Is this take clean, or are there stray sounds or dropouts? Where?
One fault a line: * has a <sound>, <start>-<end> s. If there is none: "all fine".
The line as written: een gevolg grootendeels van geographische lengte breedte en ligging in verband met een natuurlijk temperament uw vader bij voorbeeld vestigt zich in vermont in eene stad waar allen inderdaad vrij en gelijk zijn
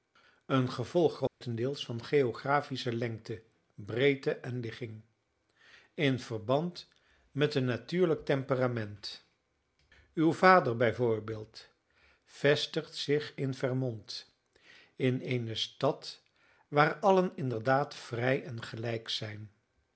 * has a dropout, 1.3-1.4 s